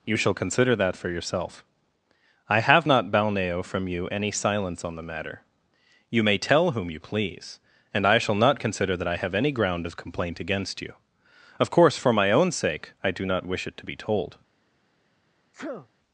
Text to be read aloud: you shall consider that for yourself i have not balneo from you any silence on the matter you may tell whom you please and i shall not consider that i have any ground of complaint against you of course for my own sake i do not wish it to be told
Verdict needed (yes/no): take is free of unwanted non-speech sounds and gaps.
no